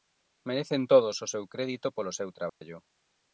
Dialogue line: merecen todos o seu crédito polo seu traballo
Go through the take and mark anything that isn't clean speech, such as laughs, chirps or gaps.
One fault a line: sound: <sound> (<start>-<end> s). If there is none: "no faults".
sound: dropout (2.5-2.6 s)